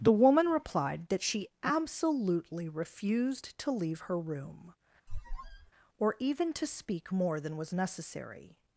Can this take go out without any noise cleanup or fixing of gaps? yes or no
no